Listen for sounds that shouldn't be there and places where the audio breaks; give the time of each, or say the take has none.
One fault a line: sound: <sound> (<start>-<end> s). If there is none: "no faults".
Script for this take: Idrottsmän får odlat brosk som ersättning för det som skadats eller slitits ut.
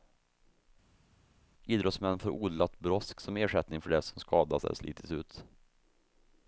no faults